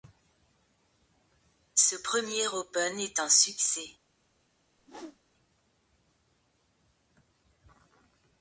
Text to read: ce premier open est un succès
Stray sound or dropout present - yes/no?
yes